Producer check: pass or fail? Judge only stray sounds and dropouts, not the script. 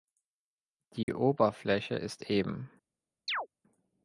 fail